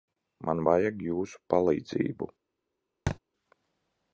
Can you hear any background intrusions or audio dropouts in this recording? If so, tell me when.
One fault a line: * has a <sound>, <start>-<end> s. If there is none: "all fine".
* has a thud, 3.1-3.2 s